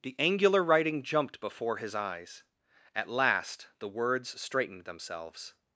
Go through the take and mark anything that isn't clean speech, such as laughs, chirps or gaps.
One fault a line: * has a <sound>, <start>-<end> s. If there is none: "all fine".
all fine